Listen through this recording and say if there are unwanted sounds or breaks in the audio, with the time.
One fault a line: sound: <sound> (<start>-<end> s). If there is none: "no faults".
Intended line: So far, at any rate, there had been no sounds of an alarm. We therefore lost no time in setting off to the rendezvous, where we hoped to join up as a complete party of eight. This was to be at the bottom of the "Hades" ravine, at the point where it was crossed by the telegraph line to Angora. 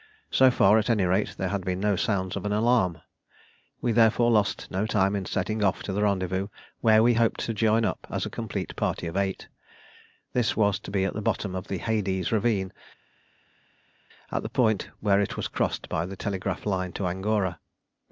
no faults